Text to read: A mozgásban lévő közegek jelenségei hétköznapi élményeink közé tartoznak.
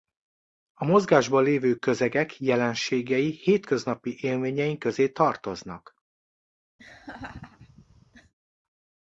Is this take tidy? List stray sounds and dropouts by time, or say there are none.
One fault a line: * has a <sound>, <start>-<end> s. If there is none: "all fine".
* has a laugh, 6.8-8.3 s